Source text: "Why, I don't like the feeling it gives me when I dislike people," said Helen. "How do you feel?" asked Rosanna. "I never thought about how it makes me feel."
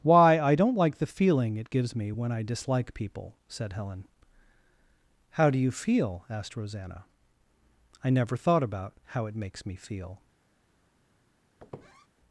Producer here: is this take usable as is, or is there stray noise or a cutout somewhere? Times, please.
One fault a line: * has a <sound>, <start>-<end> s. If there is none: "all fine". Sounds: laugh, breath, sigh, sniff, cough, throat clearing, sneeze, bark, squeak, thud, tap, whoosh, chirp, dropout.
* has a squeak, 11.6-12.1 s